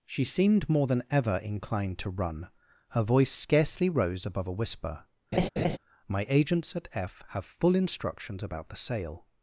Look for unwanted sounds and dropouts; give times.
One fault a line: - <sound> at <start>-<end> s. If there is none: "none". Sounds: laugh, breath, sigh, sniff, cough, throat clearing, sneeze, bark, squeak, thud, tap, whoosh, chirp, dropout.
- laugh at 5.3-5.8 s